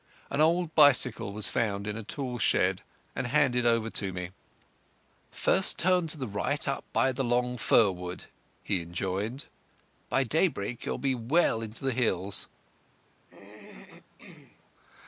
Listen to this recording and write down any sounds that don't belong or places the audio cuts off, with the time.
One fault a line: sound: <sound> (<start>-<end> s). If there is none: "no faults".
sound: throat clearing (13.2-14.7 s)